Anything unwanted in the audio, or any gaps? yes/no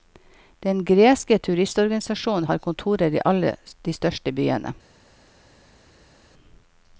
no